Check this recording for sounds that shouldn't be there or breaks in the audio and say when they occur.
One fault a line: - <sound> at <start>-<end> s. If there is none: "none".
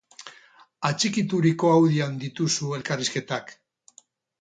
none